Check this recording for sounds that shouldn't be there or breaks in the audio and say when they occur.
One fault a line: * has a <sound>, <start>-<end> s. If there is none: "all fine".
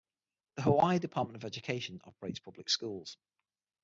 all fine